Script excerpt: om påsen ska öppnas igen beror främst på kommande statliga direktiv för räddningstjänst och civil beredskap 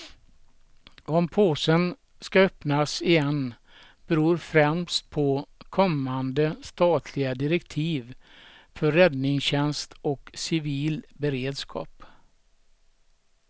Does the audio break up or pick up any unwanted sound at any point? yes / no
no